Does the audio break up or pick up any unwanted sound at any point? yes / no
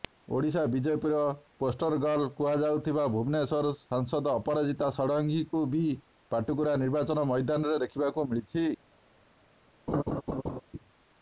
yes